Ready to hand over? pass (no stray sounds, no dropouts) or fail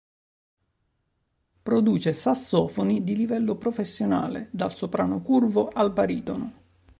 pass